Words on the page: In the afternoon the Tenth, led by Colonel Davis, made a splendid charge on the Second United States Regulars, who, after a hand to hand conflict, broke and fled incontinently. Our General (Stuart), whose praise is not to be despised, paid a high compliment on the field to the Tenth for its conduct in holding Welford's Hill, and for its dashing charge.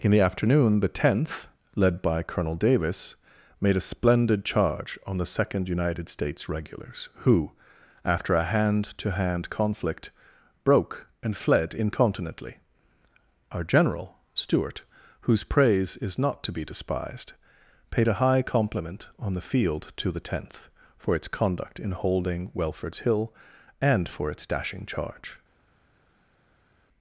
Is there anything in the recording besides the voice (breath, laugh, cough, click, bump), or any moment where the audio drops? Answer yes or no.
no